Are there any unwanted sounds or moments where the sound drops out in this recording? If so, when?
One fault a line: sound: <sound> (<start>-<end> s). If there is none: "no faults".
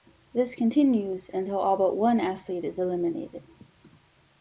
no faults